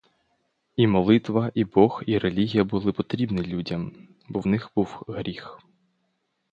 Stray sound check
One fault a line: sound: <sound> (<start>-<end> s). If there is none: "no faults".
no faults